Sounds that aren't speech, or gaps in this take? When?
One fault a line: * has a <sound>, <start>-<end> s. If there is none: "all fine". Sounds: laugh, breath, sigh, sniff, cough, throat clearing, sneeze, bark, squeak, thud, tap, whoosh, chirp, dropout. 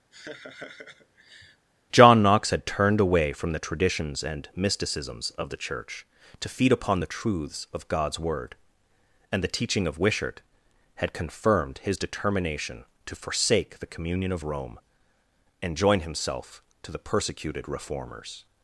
* has a laugh, 0.1-1.7 s